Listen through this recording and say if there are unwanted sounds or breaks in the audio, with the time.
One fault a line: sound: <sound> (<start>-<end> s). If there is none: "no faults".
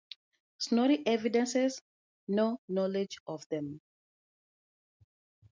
no faults